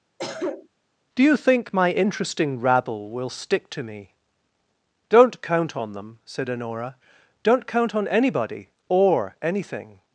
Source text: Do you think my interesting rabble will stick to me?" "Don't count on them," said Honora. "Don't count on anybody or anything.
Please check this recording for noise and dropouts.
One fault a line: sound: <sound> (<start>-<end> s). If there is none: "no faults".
sound: cough (0.2-0.7 s)